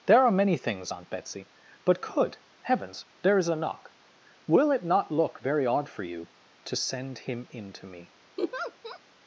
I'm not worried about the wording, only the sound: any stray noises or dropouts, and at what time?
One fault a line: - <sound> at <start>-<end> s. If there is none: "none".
- laugh at 8.4-9.0 s